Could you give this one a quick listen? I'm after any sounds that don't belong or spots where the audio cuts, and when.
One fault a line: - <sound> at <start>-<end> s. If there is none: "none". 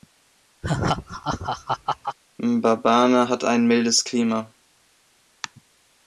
- laugh at 0.6-2.2 s